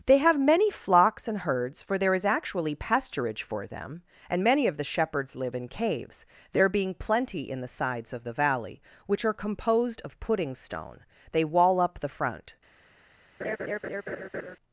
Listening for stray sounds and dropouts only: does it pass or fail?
fail